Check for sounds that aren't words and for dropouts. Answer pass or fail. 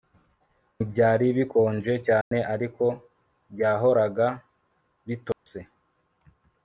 fail